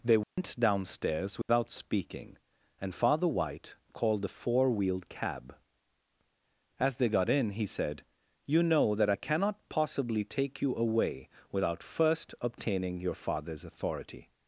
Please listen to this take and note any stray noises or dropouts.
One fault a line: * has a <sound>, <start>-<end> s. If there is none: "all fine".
* has a dropout, 0.2-0.4 s
* has a dropout, 1.4-1.5 s